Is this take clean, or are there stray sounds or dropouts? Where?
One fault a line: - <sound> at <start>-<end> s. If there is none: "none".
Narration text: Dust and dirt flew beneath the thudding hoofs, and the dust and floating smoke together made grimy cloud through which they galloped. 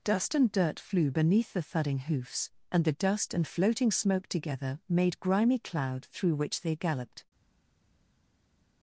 none